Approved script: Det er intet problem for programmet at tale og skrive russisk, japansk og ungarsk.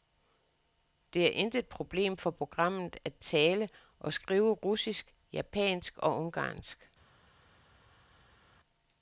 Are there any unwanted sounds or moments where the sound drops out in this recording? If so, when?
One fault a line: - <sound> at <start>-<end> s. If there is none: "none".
none